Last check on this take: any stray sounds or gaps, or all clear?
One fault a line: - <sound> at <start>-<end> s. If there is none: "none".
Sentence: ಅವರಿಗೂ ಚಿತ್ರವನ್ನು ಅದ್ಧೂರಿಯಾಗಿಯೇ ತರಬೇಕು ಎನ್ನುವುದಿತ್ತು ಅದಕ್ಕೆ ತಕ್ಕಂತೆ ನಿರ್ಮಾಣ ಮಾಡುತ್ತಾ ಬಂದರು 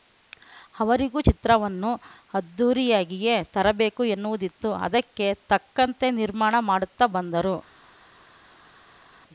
none